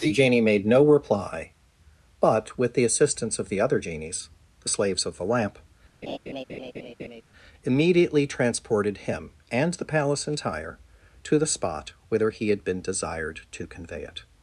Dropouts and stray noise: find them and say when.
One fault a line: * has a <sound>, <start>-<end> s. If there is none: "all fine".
* has a laugh, 6.0-7.2 s